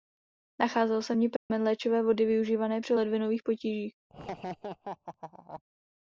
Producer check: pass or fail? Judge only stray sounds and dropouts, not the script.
fail